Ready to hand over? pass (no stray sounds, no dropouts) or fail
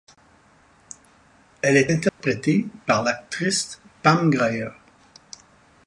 fail